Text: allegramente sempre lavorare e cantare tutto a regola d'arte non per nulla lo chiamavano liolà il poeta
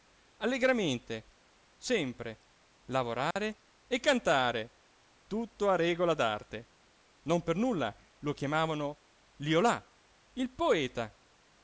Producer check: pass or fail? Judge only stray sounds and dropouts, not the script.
fail